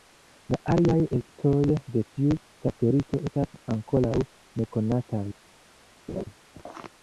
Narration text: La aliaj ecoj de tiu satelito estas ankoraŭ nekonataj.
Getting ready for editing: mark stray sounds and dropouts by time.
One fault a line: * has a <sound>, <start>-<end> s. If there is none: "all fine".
* has a laugh, 6.1-6.2 s